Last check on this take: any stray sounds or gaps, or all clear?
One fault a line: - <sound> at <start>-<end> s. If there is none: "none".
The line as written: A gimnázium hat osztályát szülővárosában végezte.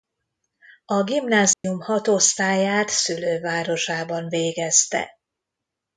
- dropout at 1.5-1.6 s